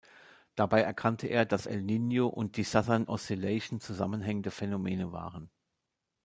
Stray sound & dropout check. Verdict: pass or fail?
pass